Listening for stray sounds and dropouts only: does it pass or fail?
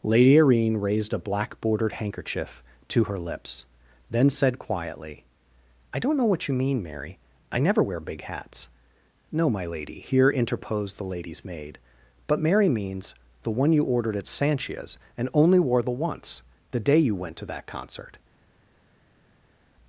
pass